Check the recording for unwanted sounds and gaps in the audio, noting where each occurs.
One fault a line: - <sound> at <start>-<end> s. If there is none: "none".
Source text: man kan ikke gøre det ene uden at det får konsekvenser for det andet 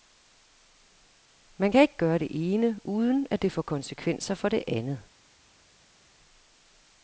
none